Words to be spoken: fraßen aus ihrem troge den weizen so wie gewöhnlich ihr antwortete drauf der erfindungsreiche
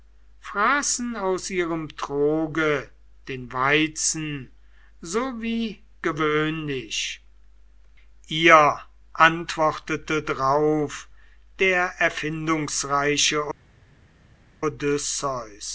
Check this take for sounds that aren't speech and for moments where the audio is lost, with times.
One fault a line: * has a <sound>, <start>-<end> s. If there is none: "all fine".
all fine